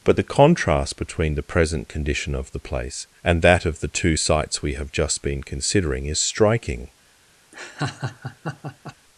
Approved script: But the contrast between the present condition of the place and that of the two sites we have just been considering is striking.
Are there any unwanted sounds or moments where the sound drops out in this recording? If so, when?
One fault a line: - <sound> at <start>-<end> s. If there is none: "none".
- laugh at 7.5-9.0 s